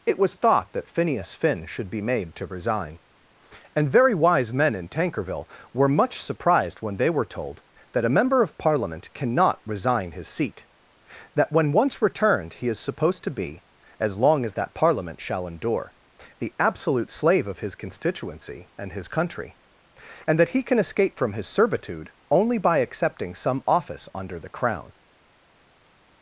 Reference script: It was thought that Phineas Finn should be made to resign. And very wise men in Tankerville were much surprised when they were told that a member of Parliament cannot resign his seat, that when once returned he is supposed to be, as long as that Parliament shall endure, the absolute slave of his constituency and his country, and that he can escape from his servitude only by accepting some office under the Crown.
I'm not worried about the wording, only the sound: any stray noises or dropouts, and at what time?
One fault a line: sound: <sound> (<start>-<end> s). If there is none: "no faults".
no faults